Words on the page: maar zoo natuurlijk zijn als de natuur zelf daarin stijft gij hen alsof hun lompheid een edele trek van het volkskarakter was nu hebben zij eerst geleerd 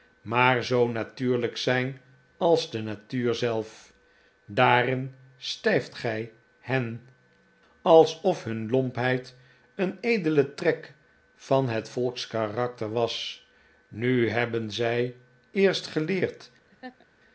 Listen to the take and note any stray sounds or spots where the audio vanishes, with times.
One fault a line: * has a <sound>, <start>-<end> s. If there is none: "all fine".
* has a laugh, 16.7-17.1 s